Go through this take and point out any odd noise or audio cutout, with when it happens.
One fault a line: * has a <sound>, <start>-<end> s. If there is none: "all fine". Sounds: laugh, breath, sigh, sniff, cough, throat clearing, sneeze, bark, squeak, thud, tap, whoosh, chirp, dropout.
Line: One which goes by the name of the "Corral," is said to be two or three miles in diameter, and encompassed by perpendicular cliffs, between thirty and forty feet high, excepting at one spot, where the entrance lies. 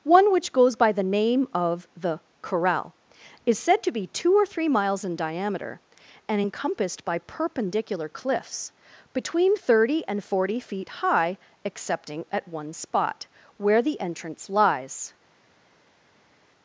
all fine